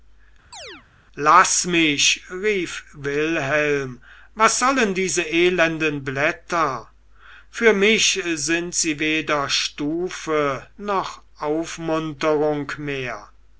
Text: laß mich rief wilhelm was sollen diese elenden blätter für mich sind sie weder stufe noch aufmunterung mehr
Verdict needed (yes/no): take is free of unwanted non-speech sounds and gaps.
no